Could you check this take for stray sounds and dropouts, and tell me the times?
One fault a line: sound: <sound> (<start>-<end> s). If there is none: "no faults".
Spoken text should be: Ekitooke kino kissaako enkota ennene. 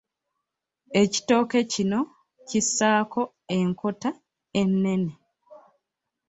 no faults